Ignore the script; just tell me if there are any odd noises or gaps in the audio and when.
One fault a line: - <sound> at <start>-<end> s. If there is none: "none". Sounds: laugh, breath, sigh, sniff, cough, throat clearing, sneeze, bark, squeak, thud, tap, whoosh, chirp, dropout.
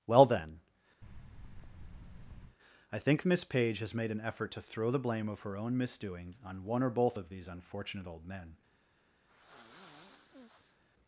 - thud at 1.0-2.6 s
- sigh at 9.3-10.8 s